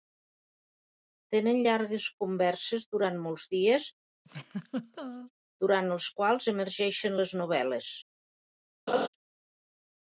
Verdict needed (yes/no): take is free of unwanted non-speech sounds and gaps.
no